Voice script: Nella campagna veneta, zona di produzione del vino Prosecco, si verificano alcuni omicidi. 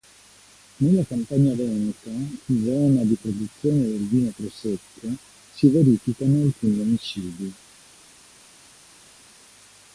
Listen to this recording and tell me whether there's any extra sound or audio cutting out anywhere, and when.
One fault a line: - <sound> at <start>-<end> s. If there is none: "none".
none